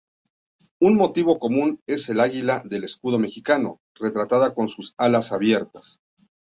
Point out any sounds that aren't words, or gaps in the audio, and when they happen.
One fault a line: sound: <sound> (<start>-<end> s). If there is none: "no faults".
no faults